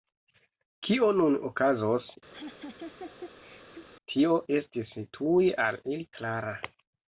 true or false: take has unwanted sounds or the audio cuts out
true